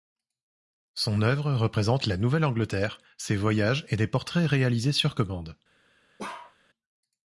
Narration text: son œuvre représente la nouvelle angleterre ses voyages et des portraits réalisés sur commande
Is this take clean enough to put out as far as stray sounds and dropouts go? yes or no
no